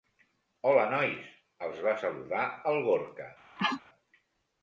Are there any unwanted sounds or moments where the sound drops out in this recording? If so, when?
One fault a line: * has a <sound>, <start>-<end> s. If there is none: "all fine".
* has a sneeze, 3.6-3.8 s